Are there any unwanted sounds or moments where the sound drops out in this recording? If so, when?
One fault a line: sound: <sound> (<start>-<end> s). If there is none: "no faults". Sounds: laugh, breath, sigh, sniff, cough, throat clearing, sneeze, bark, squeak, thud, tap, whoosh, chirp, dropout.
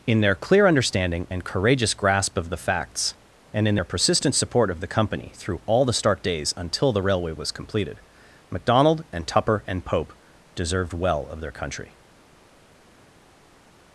no faults